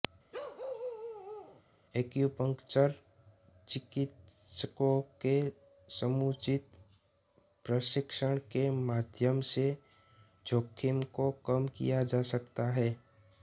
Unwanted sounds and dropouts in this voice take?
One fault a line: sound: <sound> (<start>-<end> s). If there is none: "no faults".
sound: bark (0.3-1.6 s)